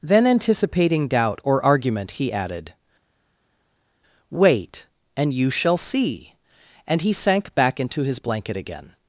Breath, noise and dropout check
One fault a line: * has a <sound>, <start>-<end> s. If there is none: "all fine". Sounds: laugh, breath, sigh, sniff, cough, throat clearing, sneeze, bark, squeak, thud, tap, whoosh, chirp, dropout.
all fine